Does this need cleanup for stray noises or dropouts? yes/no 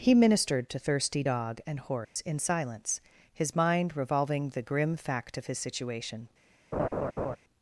yes